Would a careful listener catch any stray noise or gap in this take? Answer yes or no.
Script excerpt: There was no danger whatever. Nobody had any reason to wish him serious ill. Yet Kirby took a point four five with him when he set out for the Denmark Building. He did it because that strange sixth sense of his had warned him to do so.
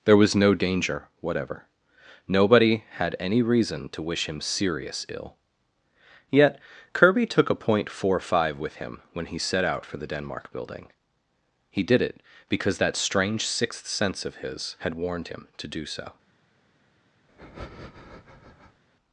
yes